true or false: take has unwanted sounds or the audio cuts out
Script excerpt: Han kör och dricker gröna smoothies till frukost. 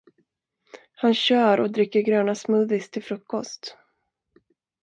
false